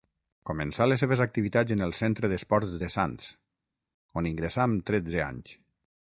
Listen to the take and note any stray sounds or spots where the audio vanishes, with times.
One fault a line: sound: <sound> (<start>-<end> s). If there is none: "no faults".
no faults